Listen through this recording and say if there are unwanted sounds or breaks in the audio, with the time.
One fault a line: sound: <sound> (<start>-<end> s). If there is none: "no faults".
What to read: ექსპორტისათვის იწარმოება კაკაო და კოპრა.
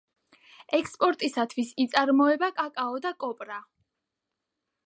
no faults